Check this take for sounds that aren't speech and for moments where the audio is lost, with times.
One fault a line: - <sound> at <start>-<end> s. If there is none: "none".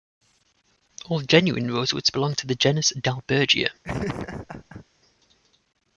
- laugh at 3.8-4.8 s